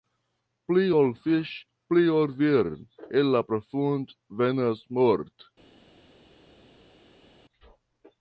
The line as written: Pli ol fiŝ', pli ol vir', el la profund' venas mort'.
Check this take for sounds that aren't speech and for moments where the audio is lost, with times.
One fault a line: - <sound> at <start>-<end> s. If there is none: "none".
none